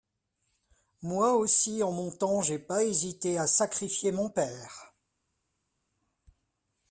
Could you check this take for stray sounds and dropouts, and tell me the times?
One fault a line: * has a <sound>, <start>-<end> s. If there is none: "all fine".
all fine